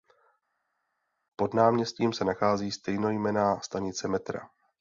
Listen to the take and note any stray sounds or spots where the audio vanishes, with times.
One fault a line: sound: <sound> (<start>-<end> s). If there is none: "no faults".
no faults